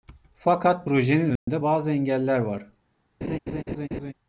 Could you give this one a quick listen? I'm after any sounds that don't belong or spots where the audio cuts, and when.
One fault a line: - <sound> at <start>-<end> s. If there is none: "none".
- dropout at 1.4-1.5 s
- laugh at 3.2-4.1 s